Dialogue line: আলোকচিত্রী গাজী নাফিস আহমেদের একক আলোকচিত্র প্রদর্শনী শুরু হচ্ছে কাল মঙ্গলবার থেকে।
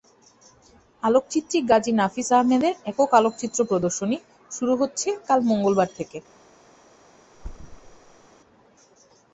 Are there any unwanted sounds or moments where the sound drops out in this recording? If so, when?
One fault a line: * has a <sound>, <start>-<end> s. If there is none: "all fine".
* has a thud, 7.3-8.3 s